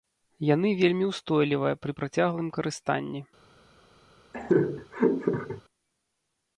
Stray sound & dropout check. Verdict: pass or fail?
fail